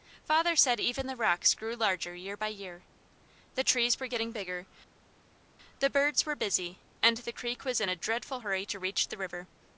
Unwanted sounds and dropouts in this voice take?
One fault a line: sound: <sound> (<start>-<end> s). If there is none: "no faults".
no faults